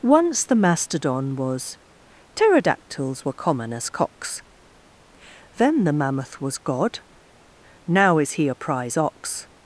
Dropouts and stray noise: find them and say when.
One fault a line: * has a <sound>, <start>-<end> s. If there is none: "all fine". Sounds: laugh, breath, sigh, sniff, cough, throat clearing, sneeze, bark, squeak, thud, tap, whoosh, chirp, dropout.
all fine